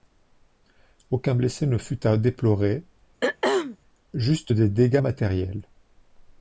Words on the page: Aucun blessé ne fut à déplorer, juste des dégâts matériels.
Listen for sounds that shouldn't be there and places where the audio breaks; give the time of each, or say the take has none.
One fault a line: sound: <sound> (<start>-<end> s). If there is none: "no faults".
sound: throat clearing (3.2-3.8 s)